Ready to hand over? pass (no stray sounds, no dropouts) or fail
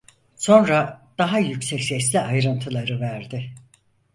pass